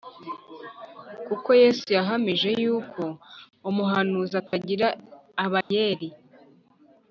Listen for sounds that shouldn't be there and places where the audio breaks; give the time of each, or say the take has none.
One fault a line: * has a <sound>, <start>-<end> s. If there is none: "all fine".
* has a dropout, 4.5-4.5 s
* has a dropout, 5.6-5.7 s